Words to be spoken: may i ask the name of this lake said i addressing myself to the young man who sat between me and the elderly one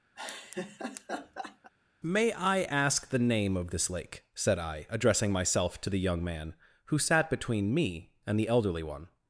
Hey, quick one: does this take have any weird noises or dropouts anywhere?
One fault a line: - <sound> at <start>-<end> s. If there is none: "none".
- laugh at 0.2-1.7 s